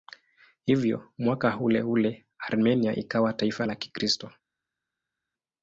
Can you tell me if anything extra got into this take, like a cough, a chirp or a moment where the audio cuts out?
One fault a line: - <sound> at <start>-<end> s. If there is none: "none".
none